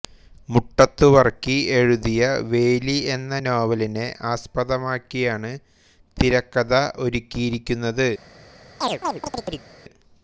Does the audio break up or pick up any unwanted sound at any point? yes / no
yes